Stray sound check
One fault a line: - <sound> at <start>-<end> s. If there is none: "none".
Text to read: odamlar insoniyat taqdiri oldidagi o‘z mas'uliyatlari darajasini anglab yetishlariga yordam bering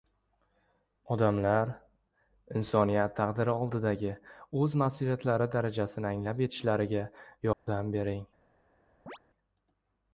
- dropout at 7.5-7.7 s
- chirp at 9.1-9.2 s